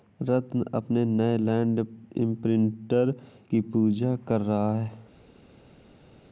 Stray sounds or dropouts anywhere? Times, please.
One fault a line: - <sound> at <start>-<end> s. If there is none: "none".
none